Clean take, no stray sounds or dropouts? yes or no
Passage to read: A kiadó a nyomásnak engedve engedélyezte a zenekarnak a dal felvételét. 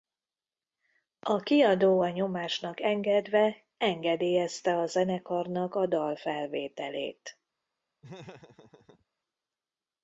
no